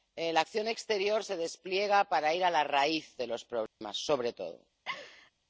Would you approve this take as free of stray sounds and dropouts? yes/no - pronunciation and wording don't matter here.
no